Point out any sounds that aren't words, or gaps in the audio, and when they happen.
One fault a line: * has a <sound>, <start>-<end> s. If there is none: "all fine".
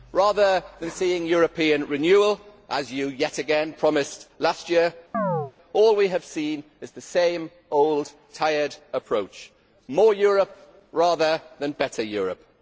* has a chirp, 5.1-5.5 s